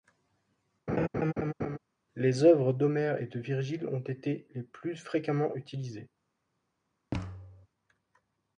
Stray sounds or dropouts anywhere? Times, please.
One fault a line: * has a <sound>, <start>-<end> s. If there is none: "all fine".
* has a laugh, 0.9-1.8 s
* has a thud, 7.1-7.7 s